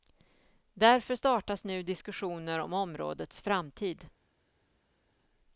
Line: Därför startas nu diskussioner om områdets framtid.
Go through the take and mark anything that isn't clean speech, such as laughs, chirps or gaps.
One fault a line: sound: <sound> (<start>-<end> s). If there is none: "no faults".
no faults